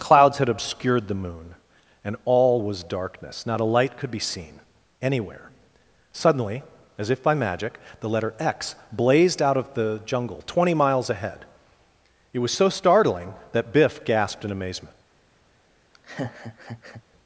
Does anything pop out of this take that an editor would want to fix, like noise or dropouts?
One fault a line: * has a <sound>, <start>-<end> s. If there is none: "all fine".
* has a laugh, 15.9-17.0 s